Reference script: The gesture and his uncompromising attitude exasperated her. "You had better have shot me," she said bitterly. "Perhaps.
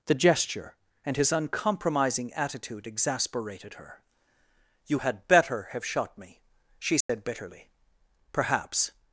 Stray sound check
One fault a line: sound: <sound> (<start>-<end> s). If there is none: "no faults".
sound: dropout (7.0-7.1 s)